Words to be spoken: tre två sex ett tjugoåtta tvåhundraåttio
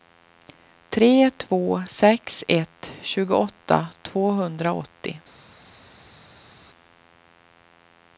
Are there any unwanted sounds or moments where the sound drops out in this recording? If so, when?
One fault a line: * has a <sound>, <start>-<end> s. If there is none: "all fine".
all fine